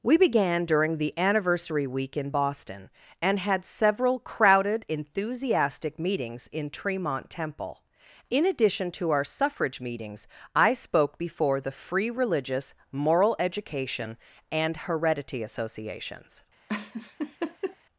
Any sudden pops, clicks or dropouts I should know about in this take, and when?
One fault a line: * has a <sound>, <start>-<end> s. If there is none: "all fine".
* has a laugh, 16.7-17.8 s